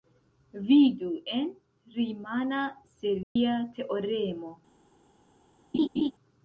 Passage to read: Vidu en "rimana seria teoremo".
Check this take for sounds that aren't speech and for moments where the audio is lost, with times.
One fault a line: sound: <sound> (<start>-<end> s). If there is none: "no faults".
sound: dropout (3.2-3.4 s)
sound: laugh (5.7-6.1 s)